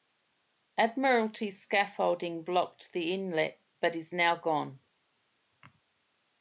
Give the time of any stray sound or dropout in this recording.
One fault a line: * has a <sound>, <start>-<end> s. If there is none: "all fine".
all fine